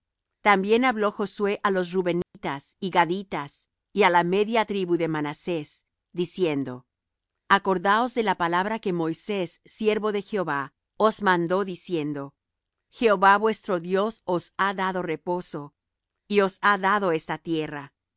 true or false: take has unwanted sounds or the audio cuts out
true